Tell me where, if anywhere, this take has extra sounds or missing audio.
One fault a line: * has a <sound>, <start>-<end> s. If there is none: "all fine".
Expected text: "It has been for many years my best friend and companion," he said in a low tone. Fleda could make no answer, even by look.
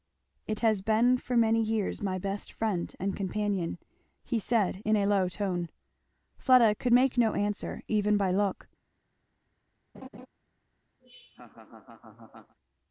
* has a laugh, 9.9-10.3 s
* has a laugh, 11.0-12.6 s